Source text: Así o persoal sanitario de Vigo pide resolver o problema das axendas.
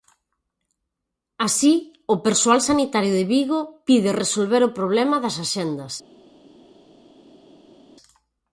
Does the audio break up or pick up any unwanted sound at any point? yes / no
no